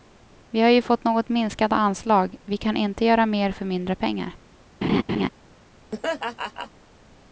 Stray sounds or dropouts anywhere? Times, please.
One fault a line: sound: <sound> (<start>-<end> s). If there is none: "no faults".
sound: laugh (4.8-5.3 s)
sound: laugh (5.9-6.7 s)